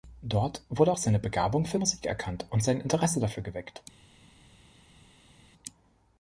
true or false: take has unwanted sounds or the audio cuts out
false